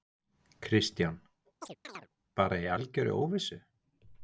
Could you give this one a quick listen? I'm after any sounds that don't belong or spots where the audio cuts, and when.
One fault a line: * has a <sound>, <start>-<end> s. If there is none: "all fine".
* has a chirp, 1.6-2.1 s